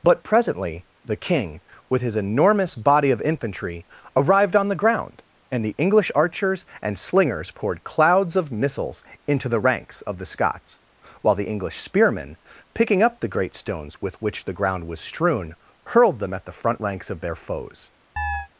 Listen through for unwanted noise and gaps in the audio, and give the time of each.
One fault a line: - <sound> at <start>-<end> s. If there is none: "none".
- chirp at 18.2-18.5 s